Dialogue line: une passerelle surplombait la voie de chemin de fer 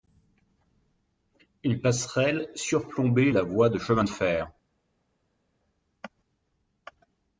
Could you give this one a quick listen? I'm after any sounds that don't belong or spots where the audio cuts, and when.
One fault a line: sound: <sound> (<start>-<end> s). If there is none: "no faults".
no faults